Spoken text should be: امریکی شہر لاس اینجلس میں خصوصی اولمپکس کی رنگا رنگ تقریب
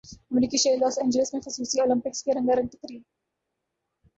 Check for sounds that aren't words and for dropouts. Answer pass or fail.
pass